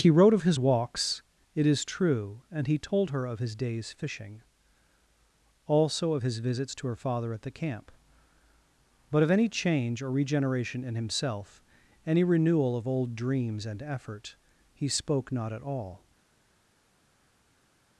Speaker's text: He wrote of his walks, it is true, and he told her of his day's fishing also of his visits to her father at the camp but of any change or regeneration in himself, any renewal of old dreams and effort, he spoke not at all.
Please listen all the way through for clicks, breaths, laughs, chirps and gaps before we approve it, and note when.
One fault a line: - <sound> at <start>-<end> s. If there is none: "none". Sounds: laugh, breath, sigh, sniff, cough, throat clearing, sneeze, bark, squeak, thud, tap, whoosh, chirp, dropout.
none